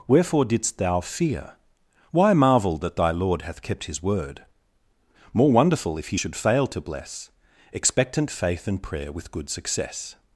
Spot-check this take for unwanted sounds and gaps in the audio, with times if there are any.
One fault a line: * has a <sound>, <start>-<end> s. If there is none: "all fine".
all fine